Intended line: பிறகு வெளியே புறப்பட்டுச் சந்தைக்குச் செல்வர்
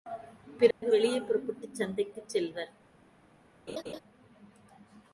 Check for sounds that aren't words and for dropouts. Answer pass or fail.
fail